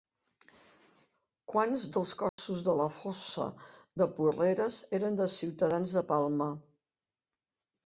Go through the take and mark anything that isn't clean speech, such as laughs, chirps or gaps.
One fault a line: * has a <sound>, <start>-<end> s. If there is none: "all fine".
* has a dropout, 2.3-2.4 s